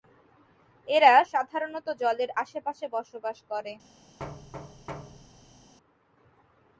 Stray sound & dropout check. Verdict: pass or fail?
fail